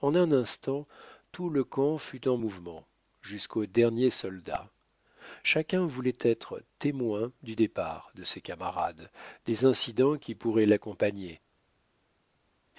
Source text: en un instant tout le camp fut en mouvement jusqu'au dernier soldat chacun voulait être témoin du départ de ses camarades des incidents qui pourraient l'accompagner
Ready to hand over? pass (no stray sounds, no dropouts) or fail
pass